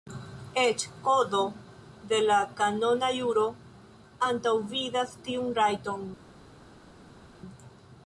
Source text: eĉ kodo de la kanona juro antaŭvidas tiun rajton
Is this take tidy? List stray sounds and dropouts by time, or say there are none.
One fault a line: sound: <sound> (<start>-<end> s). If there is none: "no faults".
no faults